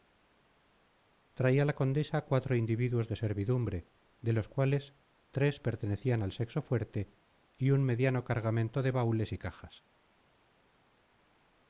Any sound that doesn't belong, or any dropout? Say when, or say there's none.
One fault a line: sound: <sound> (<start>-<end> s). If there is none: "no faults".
no faults